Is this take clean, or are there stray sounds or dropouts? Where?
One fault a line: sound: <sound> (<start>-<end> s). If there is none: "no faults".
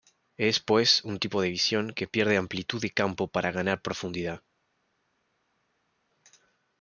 no faults